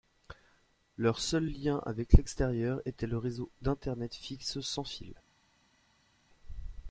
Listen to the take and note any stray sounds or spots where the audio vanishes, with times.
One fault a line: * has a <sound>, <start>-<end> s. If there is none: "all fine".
all fine